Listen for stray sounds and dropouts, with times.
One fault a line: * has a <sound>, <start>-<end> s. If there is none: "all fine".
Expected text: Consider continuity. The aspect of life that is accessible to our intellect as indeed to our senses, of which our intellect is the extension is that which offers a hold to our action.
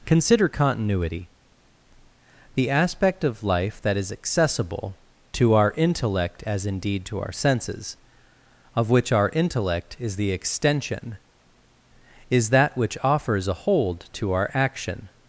all fine